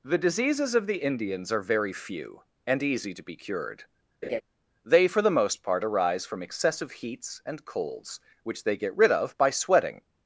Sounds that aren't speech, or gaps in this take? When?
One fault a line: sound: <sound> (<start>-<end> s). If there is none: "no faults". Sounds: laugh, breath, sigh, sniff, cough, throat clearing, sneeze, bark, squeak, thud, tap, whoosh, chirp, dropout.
sound: laugh (4.2-4.4 s)